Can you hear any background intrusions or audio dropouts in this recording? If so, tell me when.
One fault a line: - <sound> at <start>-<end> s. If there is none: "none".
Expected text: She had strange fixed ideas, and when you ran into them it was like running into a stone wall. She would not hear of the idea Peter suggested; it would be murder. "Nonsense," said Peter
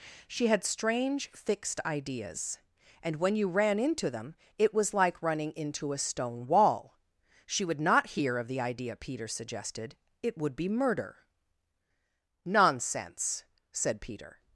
none